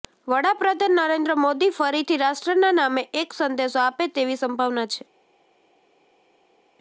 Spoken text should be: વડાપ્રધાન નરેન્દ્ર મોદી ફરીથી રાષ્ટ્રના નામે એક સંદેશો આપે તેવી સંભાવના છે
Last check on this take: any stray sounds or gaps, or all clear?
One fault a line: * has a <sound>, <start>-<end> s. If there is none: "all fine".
all fine